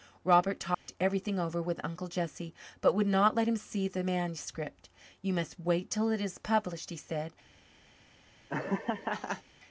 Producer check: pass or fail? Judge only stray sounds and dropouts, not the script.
fail